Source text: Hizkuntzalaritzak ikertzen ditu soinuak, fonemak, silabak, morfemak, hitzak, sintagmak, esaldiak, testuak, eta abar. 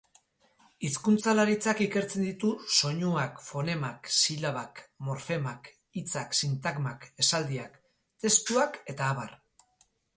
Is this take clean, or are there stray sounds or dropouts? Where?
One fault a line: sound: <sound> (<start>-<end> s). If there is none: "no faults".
no faults